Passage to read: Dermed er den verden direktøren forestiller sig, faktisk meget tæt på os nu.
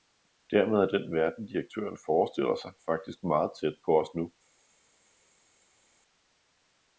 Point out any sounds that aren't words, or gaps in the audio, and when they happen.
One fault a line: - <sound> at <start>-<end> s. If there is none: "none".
none